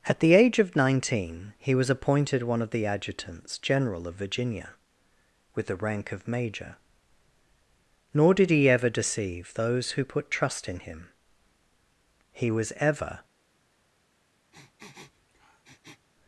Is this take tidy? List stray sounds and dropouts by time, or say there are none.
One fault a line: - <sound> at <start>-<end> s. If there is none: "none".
- sniff at 14.5-16.1 s